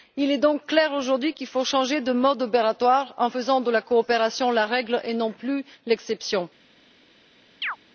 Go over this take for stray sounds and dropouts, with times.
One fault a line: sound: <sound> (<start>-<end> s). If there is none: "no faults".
sound: chirp (7.6-7.8 s)